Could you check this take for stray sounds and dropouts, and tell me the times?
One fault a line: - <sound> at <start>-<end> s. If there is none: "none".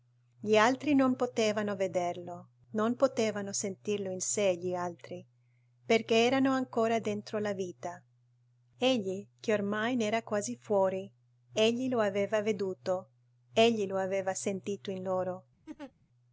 - laugh at 15.7-15.9 s